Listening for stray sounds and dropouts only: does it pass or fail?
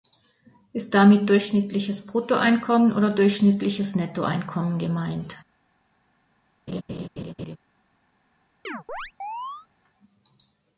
fail